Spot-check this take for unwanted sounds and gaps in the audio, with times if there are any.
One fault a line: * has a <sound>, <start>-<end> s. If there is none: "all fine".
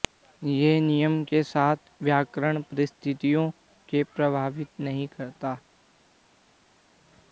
all fine